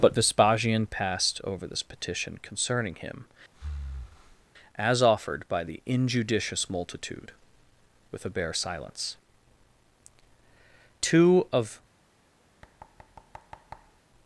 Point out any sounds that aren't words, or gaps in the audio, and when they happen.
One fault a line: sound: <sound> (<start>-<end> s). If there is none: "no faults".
sound: breath (3.5-4.5 s)
sound: thud (12.6-14.0 s)